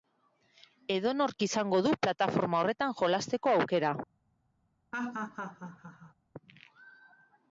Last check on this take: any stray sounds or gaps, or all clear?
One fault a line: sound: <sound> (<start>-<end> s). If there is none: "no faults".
sound: laugh (4.9-6.1 s)